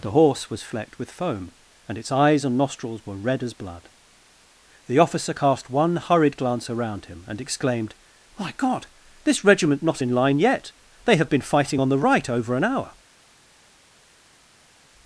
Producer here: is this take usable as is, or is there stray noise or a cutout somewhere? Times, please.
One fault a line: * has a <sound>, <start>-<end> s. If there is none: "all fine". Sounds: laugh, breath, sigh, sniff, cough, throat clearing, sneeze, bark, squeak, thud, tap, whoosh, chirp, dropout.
all fine